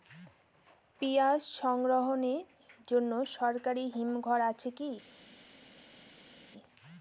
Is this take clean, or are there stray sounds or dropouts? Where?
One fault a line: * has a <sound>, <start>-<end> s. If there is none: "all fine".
all fine